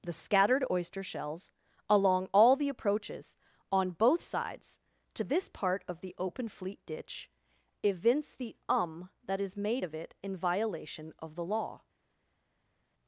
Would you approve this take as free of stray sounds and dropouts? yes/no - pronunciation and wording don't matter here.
yes